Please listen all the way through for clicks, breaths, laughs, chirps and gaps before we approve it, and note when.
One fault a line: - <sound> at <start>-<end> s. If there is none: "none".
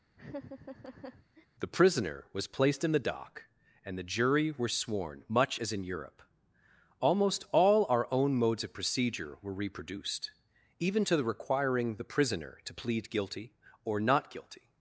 - laugh at 0.1-1.5 s